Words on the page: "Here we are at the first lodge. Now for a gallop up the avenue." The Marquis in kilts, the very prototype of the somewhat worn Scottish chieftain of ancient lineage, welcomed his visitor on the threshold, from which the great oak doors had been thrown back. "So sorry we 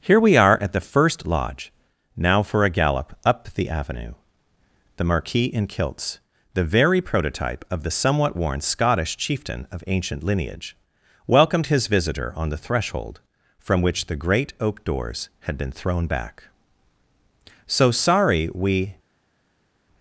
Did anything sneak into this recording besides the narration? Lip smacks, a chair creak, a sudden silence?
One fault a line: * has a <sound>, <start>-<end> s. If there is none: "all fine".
all fine